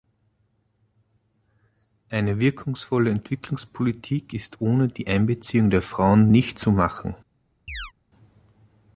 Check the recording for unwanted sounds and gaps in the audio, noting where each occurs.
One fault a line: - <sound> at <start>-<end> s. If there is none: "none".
- chirp at 7.7-7.9 s